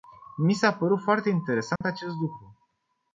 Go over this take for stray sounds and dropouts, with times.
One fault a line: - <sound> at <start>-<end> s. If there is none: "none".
- dropout at 1.8-1.8 s